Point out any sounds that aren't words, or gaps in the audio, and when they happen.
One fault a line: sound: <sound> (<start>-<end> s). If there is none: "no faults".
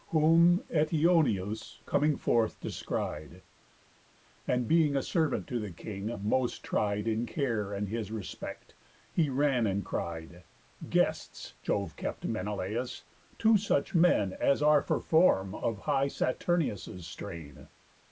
no faults